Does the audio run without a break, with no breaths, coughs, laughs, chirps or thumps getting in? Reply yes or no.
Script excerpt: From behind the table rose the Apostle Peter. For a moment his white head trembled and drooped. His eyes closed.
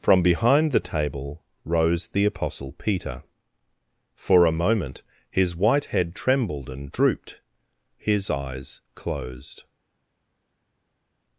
yes